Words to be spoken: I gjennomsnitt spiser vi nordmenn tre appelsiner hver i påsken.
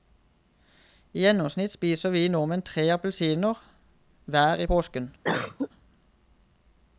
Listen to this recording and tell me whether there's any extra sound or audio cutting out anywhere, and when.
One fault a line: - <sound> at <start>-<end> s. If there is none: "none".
- cough at 5.2-5.7 s